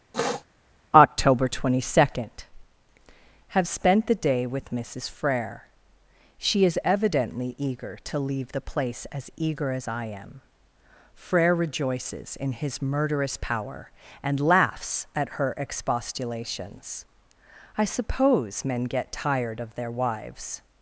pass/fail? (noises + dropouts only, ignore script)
fail